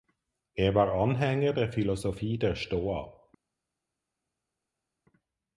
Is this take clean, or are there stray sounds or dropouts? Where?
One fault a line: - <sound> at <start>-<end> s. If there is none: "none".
none